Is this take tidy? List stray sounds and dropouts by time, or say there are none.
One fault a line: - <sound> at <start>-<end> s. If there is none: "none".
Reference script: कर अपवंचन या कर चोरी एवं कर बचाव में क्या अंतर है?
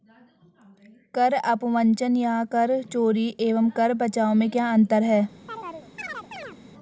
- chirp at 5.5-6.6 s